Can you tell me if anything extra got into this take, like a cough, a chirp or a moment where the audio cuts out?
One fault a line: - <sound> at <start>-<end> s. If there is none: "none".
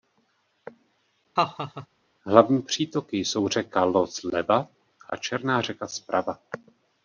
- laugh at 1.4-1.9 s